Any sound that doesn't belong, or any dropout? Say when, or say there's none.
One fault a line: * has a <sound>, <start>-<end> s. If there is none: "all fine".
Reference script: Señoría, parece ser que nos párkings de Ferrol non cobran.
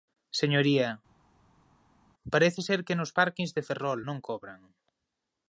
all fine